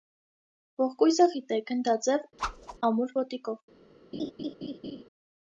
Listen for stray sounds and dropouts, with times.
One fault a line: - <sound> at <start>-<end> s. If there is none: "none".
- whoosh at 2.4-2.8 s
- laugh at 4.1-5.0 s